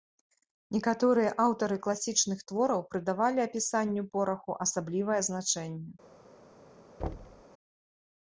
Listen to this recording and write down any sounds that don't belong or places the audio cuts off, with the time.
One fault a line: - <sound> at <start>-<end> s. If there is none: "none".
- thud at 7.0-7.4 s